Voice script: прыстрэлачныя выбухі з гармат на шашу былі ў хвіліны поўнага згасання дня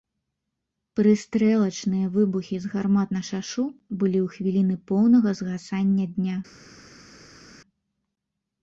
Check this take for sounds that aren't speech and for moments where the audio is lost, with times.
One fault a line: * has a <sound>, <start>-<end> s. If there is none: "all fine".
all fine